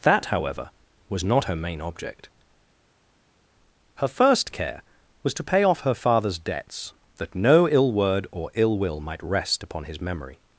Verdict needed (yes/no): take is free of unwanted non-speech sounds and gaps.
yes